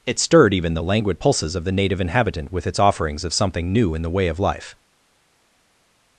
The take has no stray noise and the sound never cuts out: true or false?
true